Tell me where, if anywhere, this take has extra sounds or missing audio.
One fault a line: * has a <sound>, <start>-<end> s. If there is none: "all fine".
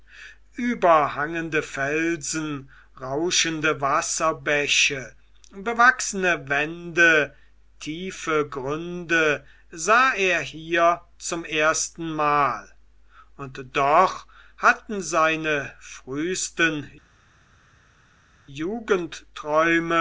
all fine